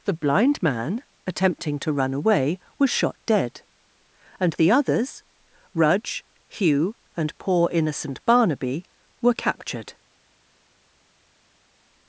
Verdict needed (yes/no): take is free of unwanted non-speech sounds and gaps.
yes